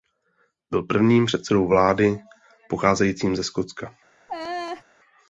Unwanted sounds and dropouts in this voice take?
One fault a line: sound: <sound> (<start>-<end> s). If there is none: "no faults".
sound: laugh (4.3-4.8 s)